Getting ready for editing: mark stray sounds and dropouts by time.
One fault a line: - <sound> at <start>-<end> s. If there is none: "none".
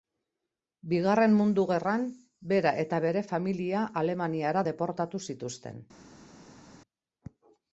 none